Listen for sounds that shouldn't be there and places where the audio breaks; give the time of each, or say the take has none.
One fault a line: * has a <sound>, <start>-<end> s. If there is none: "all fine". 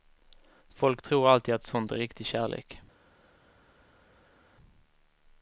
all fine